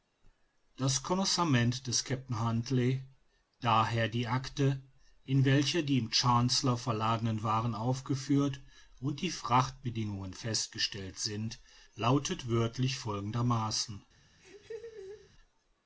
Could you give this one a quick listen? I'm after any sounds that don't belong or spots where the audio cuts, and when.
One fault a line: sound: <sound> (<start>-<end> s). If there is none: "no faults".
sound: laugh (14.4-15.3 s)